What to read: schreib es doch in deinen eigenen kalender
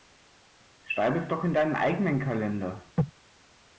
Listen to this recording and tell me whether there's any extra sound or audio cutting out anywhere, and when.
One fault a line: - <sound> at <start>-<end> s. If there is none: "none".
none